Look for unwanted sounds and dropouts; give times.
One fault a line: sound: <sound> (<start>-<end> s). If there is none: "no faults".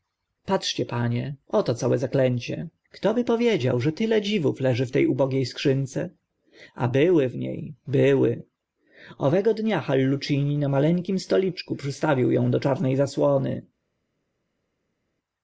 no faults